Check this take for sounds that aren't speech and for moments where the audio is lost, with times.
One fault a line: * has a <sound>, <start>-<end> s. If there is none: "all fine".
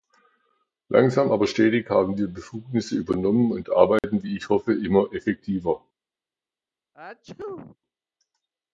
* has a dropout, 4.0-4.0 s
* has a sneeze, 6.9-7.8 s